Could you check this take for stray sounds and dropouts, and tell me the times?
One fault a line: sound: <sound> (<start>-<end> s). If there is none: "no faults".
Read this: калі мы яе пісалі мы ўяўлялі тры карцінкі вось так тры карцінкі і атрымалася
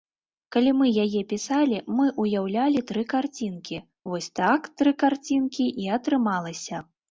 no faults